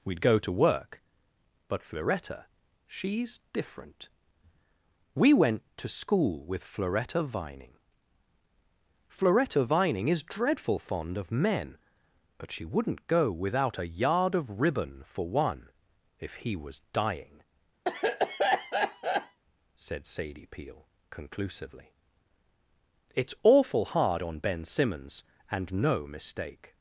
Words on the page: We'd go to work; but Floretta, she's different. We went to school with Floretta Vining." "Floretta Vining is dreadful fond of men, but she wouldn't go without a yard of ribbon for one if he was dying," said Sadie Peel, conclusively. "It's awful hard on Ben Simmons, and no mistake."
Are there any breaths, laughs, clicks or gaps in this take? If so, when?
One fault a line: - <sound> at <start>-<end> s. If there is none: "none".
- cough at 17.8-19.4 s